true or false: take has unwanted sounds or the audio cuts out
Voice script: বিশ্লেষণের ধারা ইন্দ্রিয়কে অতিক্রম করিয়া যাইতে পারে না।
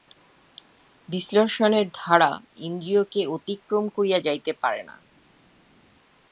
false